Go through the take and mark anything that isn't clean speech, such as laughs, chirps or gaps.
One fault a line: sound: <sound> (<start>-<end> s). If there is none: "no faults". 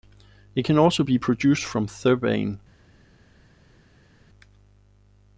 no faults